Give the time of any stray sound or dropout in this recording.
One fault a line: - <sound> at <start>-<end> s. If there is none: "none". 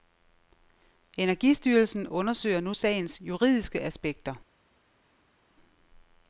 none